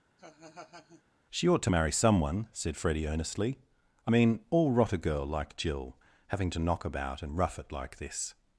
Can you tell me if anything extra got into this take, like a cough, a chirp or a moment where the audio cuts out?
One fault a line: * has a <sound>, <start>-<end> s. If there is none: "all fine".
* has a laugh, 0.2-1.0 s